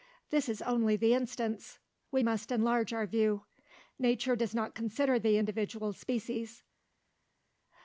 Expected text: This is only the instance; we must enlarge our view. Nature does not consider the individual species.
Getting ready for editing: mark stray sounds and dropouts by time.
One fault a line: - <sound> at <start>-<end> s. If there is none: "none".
none